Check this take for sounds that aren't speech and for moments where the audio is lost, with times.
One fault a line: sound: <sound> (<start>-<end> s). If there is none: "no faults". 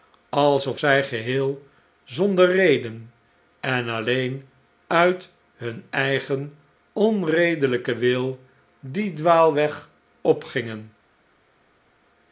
no faults